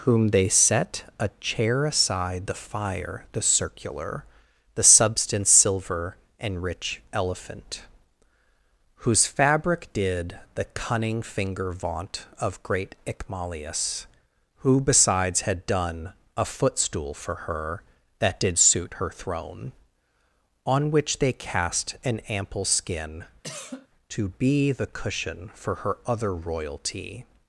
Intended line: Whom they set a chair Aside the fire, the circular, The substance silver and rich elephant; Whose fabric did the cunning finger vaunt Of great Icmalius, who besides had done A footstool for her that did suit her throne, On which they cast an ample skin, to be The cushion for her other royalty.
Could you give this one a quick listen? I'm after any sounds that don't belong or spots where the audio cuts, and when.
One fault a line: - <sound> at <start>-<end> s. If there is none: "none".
- cough at 23.4-23.9 s